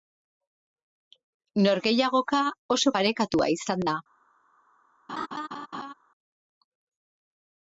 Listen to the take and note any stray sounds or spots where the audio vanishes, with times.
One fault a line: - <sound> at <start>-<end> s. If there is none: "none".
- laugh at 5.1-5.9 s